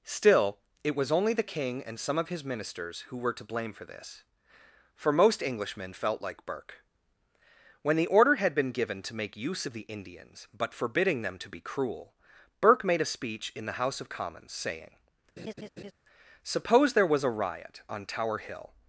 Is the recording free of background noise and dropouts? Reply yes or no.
no